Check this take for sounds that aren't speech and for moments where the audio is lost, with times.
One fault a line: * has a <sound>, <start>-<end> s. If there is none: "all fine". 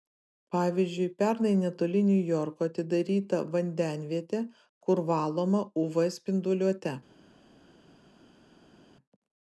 all fine